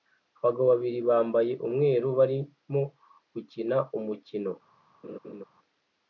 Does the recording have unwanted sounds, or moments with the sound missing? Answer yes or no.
yes